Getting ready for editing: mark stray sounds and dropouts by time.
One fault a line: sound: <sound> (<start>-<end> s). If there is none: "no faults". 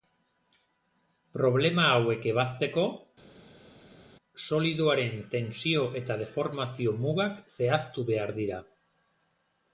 no faults